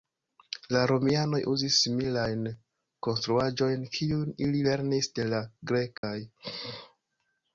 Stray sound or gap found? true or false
true